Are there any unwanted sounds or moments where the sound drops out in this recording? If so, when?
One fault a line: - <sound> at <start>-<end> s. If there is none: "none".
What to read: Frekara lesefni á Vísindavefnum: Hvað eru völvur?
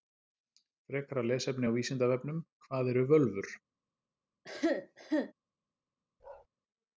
- cough at 4.4-5.3 s
- bark at 6.2-6.5 s